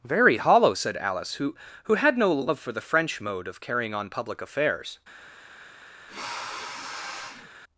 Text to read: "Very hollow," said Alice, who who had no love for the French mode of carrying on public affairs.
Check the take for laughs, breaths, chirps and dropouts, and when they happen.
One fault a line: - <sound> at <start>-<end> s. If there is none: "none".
- sniff at 6.1-7.5 s